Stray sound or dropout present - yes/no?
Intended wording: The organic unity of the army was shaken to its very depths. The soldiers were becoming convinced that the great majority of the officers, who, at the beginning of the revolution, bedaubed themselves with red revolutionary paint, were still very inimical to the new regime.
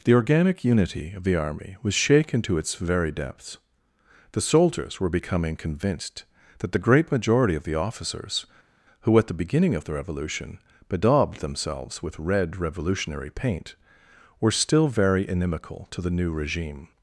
no